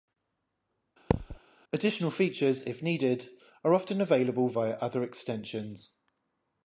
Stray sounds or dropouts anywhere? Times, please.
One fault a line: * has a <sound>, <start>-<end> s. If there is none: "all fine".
* has a thud, 1.1-1.4 s